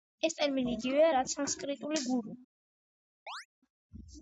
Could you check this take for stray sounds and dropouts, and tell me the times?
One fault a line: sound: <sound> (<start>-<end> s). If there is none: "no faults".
sound: chirp (3.3-3.5 s)